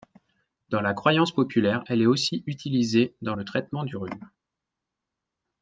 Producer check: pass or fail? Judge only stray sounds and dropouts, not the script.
pass